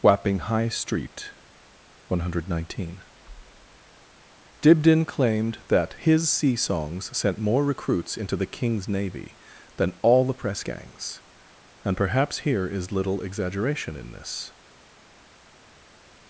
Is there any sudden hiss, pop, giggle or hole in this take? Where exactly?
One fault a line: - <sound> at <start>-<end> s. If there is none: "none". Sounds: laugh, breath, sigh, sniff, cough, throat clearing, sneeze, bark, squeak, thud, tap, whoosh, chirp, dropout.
none